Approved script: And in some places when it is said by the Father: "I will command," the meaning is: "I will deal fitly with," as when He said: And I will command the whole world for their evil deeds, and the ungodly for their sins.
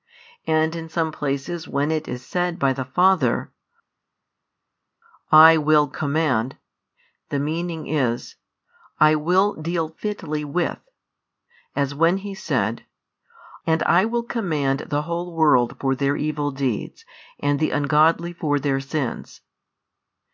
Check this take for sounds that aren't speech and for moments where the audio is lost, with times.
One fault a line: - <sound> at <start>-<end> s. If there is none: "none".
none